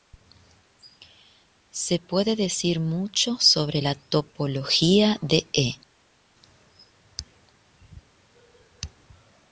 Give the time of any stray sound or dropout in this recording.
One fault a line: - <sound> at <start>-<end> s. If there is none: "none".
none